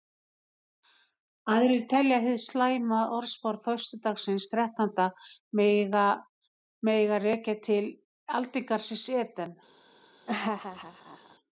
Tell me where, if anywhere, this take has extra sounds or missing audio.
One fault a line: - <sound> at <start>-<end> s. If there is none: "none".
- laugh at 10.3-11.4 s